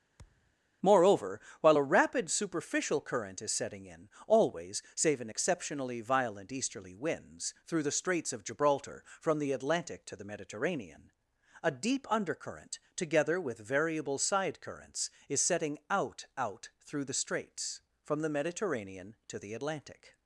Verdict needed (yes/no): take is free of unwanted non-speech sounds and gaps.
no